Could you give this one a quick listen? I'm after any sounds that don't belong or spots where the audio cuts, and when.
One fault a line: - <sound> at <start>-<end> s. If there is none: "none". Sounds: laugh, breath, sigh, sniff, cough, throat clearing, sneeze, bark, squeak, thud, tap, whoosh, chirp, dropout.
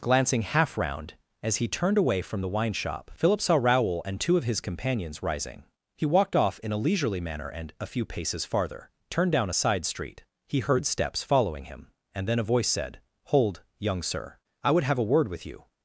none